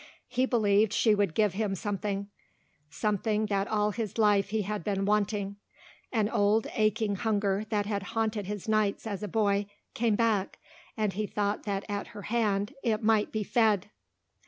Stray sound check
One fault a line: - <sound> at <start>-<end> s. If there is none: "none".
none